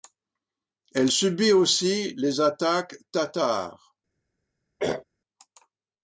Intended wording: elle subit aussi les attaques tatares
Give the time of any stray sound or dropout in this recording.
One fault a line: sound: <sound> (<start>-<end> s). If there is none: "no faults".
sound: throat clearing (4.8-5.0 s)